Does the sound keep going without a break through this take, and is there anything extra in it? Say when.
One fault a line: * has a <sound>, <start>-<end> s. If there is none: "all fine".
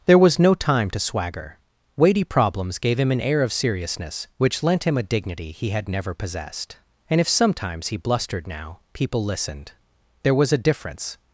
all fine